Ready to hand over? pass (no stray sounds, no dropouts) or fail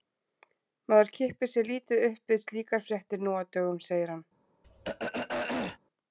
fail